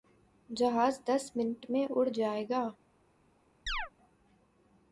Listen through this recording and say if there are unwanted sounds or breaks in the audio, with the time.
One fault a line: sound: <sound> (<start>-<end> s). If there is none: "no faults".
sound: chirp (3.7-3.9 s)